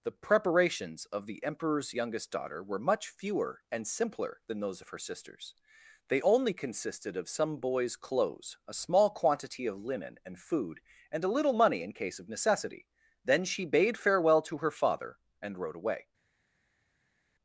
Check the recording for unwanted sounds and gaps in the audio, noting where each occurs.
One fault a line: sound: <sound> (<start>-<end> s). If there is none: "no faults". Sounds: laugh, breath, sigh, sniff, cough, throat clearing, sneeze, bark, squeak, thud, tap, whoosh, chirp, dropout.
no faults